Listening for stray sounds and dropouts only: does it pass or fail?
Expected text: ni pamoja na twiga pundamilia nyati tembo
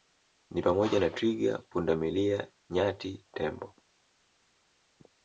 pass